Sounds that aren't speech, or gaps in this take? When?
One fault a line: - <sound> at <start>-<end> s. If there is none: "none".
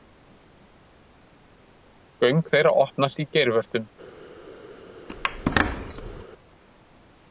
- squeak at 5.1-6.2 s